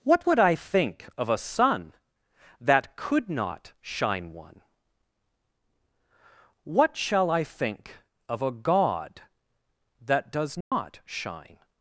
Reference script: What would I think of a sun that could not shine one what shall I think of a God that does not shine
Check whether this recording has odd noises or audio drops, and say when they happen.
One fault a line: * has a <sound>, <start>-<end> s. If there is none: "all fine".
* has a dropout, 10.6-10.7 s